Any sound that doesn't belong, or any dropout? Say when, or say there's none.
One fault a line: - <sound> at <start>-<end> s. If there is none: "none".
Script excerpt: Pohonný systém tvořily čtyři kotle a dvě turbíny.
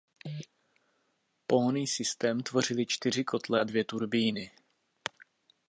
none